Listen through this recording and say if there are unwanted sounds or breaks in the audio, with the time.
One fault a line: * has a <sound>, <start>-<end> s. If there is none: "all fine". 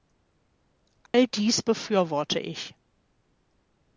* has a dropout, 1.1-1.1 s